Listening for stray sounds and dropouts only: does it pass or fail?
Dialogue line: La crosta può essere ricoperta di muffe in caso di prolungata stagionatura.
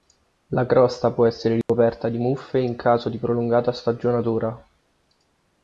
fail